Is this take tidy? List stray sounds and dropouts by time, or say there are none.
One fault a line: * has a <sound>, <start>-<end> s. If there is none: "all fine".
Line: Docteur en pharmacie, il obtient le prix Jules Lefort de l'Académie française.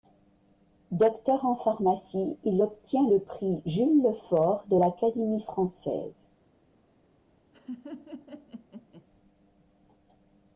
* has a laugh, 7.5-9.1 s